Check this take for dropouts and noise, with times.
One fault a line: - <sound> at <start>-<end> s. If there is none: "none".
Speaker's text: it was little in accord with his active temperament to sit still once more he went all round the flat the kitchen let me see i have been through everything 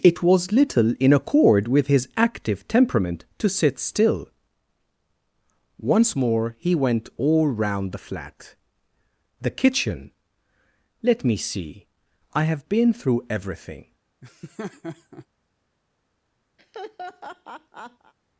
- laugh at 14.2-15.3 s
- laugh at 16.6-18.1 s